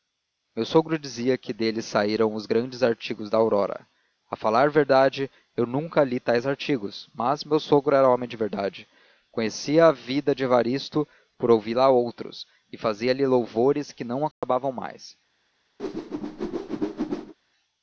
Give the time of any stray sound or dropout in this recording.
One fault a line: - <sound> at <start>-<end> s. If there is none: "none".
- dropout at 14.3-14.4 s
- whoosh at 15.8-17.3 s